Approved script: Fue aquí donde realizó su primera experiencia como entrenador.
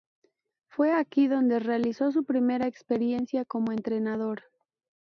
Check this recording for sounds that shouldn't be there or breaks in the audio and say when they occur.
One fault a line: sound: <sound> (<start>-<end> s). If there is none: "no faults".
no faults